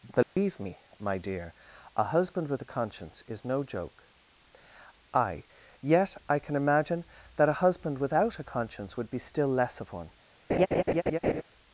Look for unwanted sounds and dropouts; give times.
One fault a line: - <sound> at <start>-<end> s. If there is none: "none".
- dropout at 0.2-0.4 s
- laugh at 10.5-11.4 s